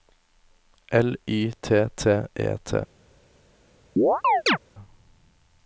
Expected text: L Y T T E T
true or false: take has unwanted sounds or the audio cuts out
true